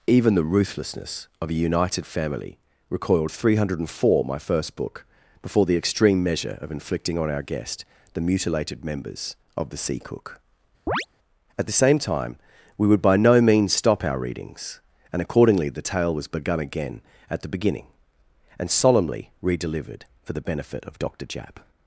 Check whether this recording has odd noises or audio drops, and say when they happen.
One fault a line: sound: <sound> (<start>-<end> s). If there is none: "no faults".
sound: chirp (10.9-11.1 s)